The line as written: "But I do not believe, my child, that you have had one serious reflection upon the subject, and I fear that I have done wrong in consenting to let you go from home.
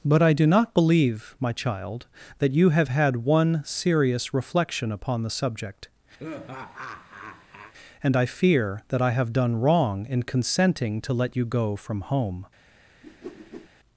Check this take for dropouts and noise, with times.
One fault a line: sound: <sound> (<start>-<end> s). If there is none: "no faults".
sound: laugh (6.2-7.7 s)
sound: whoosh (13.0-13.7 s)